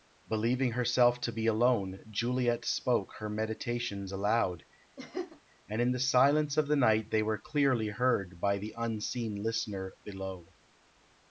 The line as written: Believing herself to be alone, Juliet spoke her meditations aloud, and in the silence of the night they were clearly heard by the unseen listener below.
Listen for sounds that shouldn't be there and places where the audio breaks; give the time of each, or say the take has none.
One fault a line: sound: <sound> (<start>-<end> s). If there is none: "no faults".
sound: laugh (5.0-5.4 s)